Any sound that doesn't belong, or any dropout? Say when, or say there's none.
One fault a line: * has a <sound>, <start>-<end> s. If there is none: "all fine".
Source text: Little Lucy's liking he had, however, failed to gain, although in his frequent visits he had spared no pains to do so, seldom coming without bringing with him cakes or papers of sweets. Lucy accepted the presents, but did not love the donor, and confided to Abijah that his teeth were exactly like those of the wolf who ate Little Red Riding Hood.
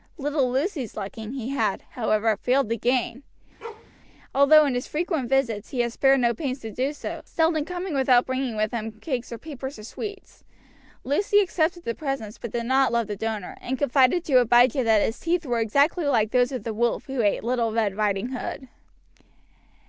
* has a bark, 3.6-3.9 s